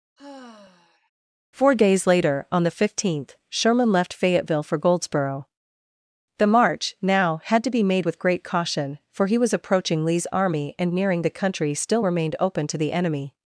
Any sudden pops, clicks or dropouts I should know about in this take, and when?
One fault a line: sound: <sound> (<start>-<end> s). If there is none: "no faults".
sound: sigh (0.2-1.1 s)